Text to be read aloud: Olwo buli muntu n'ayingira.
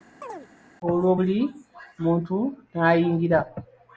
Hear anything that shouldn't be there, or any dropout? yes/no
yes